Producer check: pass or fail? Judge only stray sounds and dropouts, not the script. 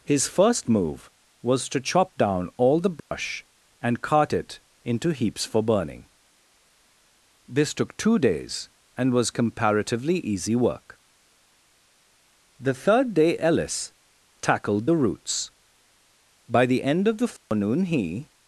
fail